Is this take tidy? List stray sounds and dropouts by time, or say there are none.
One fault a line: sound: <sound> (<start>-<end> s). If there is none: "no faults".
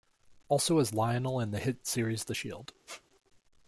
sound: squeak (2.9-3.0 s)